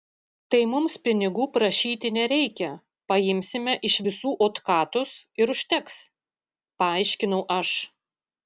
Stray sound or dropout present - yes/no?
no